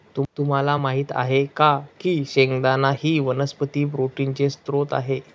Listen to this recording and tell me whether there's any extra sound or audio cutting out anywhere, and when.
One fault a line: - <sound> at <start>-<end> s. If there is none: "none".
none